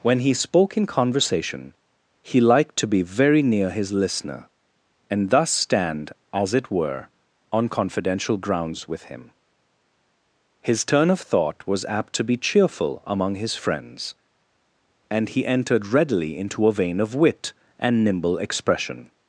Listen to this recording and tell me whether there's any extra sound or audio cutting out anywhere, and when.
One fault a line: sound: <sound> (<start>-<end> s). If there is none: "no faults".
no faults